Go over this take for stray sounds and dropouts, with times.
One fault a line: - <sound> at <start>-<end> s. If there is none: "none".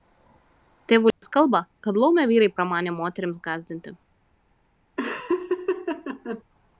- dropout at 1.1-1.2 s
- laugh at 5.0-6.4 s